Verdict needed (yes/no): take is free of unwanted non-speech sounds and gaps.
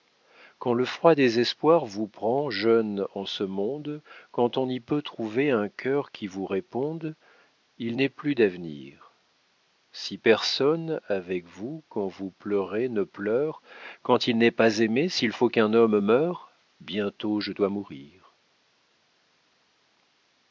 yes